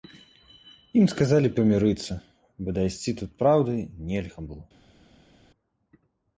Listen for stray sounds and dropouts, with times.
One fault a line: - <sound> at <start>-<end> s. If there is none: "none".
none